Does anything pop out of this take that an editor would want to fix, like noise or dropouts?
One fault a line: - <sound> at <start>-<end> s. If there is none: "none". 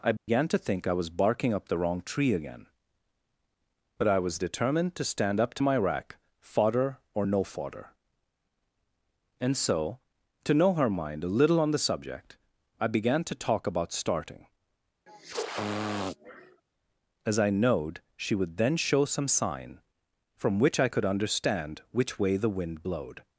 - dropout at 0.2-0.3 s
- sniff at 15.1-16.6 s